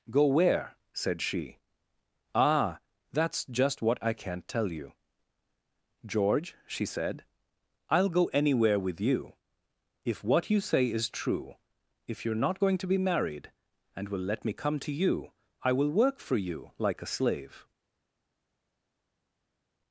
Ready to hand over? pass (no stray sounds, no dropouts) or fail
pass